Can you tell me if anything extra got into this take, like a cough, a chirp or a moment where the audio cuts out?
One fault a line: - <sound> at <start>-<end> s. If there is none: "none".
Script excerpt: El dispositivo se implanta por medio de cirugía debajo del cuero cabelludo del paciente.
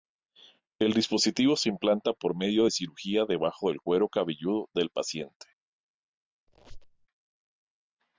- squeak at 6.5-7.1 s